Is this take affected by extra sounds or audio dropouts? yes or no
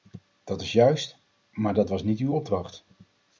no